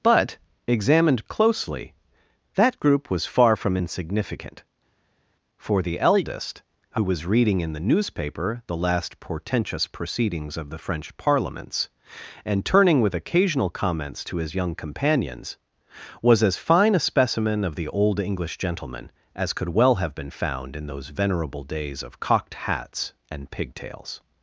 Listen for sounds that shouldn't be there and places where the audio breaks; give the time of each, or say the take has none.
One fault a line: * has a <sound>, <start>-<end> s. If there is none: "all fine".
all fine